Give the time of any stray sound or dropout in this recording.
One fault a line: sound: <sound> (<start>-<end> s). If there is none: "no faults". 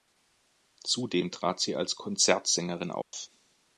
sound: dropout (3.0-3.1 s)